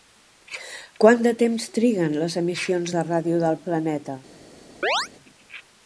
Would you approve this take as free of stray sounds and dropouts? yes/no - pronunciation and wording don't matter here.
no